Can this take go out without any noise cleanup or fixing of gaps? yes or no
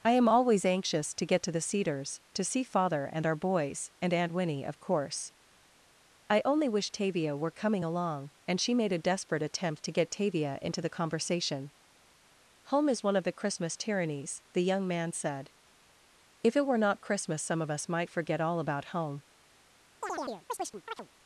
no